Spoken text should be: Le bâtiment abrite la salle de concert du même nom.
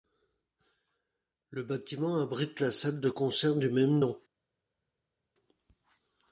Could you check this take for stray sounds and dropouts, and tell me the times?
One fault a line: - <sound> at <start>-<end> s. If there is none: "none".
none